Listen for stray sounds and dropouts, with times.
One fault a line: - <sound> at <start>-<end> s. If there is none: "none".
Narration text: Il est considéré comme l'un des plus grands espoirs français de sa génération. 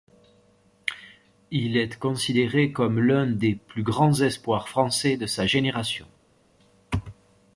none